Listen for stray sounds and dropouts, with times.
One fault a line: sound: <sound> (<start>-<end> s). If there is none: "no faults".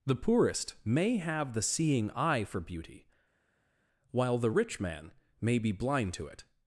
no faults